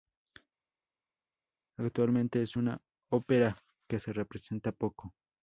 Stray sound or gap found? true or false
false